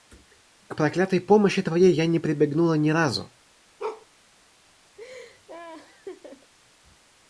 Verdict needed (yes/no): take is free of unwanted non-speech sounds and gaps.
no